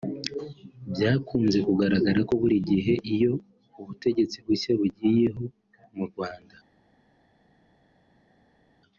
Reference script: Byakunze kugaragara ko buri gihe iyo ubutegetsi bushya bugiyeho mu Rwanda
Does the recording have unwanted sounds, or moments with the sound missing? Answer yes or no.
no